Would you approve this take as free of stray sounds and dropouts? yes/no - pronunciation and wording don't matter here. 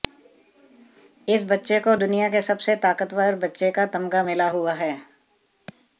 yes